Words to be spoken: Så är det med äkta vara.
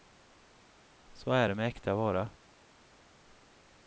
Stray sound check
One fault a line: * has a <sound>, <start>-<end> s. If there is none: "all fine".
all fine